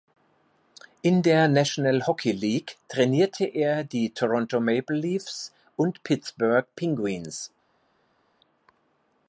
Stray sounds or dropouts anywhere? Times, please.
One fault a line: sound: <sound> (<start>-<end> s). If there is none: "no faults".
no faults